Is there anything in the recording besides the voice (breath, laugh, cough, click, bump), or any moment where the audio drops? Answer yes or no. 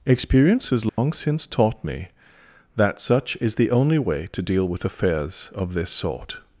yes